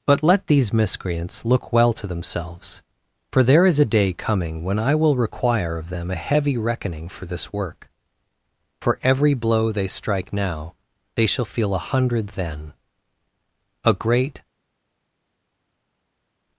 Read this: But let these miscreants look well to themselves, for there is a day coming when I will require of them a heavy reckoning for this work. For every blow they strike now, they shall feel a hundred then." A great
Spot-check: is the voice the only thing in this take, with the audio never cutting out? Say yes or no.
yes